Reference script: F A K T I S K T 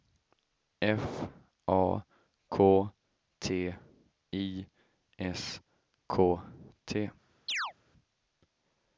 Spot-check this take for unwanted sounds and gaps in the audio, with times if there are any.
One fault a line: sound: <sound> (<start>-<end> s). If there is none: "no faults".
sound: chirp (7.5-7.7 s)